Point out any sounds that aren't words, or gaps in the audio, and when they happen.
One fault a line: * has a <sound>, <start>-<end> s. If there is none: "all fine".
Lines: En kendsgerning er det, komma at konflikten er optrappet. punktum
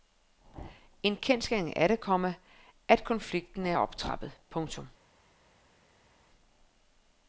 all fine